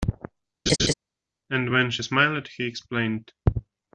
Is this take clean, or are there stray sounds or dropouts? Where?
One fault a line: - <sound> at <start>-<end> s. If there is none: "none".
- laugh at 0.7-0.9 s